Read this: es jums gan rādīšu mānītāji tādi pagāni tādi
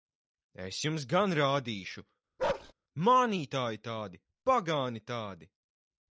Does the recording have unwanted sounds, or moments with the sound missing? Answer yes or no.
yes